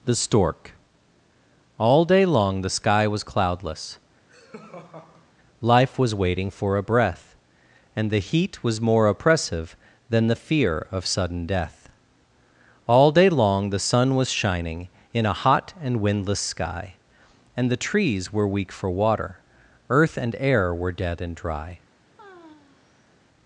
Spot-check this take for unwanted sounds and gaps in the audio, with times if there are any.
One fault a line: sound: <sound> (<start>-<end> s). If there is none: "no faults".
sound: laugh (4.3-5.3 s)
sound: sigh (22.2-23.1 s)